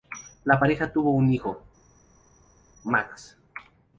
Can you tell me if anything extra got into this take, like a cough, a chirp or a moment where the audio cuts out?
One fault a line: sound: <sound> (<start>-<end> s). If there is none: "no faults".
no faults